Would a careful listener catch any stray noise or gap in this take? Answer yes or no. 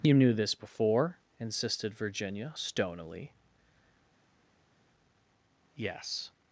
no